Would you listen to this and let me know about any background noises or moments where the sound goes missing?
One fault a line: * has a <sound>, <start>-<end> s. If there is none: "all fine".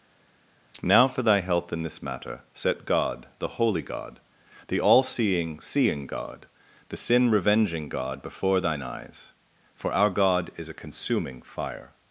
all fine